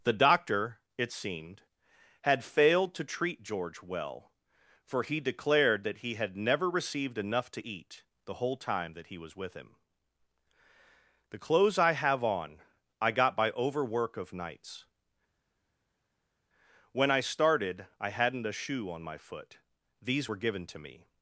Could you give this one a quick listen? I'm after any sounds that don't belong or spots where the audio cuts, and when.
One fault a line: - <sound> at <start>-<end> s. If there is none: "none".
none